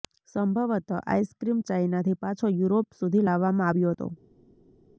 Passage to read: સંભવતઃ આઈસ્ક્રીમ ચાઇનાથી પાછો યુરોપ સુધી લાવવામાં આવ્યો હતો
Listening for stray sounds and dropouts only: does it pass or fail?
pass